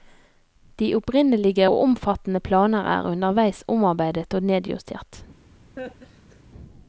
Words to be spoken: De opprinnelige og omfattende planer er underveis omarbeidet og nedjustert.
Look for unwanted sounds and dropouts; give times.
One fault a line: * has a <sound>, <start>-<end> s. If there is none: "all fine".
* has a laugh, 5.8-6.4 s